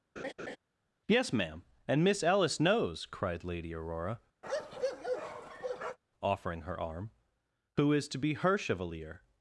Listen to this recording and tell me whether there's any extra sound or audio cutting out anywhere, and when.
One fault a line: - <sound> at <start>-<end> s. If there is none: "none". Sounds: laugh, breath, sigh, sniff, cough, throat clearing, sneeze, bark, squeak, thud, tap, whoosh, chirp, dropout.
- laugh at 0.2-0.6 s
- bark at 4.4-6.0 s